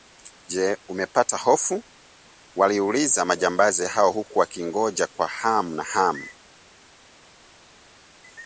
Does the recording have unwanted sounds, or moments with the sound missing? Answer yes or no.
no